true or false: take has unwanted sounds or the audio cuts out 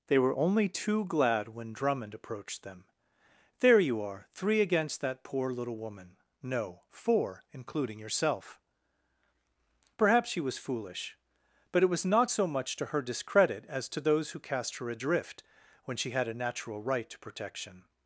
false